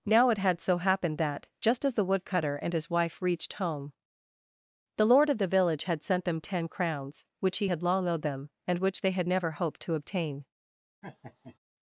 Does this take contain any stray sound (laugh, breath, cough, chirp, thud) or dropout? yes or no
yes